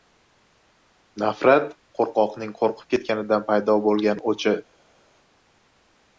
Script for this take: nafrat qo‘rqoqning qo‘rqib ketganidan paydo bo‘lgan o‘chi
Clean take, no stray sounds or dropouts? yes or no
yes